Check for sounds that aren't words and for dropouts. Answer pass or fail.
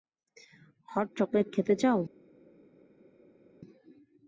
pass